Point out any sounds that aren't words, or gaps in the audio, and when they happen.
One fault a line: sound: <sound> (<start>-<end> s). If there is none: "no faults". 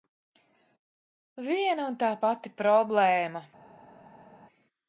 no faults